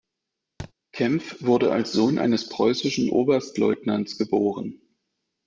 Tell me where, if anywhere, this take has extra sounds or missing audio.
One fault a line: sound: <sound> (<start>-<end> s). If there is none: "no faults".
sound: thud (0.6-0.7 s)